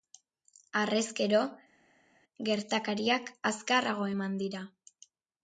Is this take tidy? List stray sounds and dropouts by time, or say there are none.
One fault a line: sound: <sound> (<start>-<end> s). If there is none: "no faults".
no faults